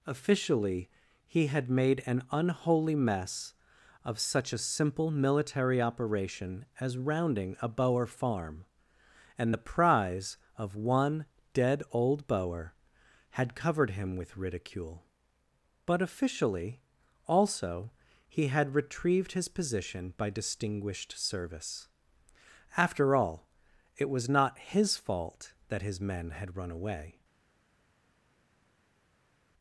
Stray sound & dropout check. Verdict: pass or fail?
pass